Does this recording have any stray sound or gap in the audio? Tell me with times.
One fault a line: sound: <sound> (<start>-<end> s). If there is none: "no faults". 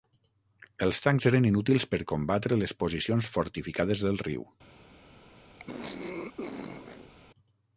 sound: throat clearing (5.6-7.1 s)